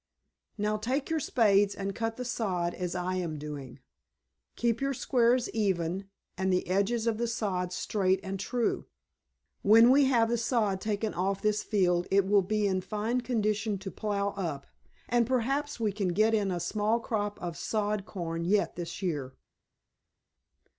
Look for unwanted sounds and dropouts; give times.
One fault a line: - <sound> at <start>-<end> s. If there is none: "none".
none